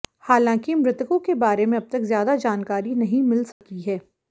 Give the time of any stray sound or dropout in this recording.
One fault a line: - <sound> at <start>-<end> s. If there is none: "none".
- dropout at 3.5-3.6 s